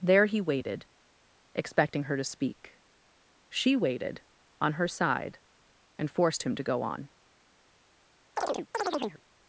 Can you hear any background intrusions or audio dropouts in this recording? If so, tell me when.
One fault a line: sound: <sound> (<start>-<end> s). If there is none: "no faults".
sound: chirp (8.4-9.2 s)